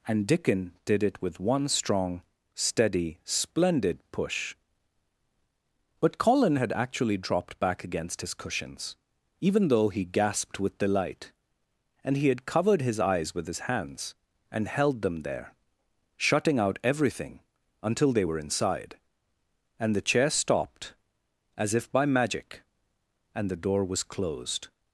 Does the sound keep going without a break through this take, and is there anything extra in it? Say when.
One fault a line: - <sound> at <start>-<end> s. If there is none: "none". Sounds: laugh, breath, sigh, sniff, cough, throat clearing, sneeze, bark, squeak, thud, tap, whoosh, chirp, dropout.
none